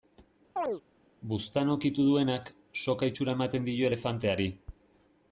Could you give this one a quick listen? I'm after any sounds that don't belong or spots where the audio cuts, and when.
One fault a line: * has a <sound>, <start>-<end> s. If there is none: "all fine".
* has a chirp, 0.6-0.8 s